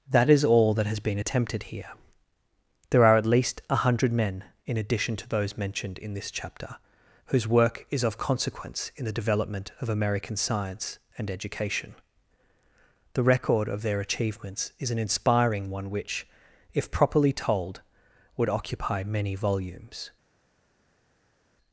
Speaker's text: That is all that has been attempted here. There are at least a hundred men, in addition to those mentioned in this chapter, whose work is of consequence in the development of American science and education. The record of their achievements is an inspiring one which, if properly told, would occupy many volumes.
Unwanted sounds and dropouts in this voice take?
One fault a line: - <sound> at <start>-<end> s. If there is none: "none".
none